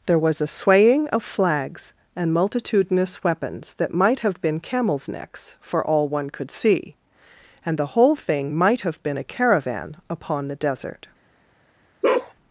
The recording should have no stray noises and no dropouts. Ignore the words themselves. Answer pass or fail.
fail